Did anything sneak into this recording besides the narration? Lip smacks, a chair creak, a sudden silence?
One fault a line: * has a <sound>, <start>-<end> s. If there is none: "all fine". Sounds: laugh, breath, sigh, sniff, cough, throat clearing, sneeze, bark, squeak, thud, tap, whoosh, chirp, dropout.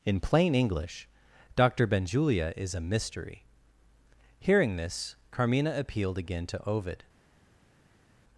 all fine